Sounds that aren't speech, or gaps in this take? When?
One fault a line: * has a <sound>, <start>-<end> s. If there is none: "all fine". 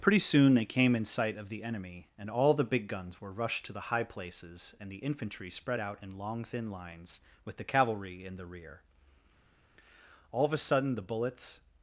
all fine